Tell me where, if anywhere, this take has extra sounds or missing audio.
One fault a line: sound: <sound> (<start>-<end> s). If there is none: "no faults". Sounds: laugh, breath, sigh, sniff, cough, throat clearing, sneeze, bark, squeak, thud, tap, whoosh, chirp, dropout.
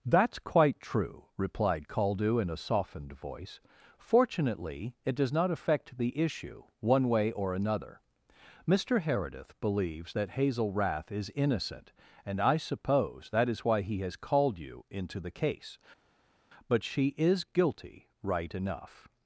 no faults